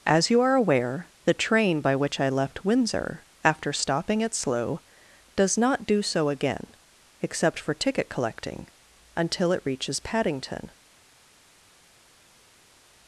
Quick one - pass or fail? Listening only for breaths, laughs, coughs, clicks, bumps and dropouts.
pass